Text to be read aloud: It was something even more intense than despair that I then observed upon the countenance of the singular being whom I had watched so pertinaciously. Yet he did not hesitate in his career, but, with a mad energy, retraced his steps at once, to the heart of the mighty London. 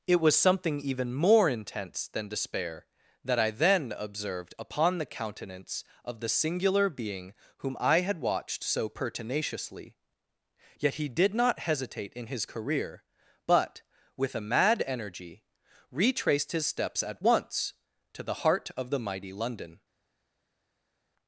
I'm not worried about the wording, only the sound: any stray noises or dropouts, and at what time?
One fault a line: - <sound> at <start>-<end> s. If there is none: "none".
none